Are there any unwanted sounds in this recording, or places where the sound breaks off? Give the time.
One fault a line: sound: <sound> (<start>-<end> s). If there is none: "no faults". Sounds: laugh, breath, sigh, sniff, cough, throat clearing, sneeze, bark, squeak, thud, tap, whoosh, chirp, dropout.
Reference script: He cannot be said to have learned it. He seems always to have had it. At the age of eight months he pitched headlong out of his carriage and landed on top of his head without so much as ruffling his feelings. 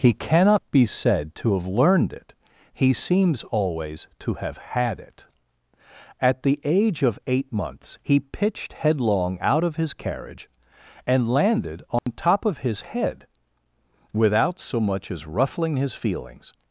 sound: dropout (12.0-12.1 s)